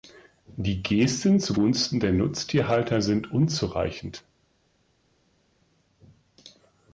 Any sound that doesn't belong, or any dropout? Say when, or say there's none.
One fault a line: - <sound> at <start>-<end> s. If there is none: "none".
none